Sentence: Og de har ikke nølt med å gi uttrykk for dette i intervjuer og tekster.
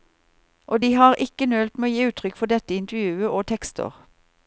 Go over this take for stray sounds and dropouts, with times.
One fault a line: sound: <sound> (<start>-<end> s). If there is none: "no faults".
no faults